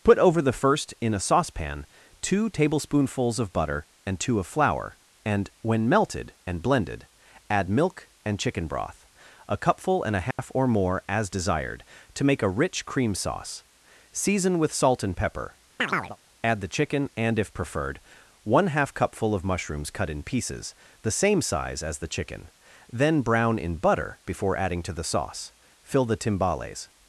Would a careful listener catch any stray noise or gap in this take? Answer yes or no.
yes